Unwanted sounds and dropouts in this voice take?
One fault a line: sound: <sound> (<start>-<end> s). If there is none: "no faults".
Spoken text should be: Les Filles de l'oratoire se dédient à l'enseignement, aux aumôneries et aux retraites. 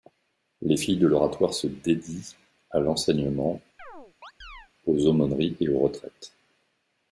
sound: chirp (3.8-4.7 s)